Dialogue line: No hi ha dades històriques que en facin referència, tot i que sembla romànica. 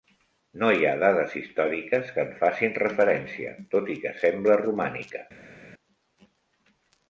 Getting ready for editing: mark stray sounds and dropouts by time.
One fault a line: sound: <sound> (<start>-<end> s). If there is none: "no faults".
no faults